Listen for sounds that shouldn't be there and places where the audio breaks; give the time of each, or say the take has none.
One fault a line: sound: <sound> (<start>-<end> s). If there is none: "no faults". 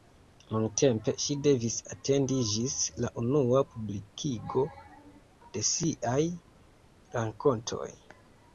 no faults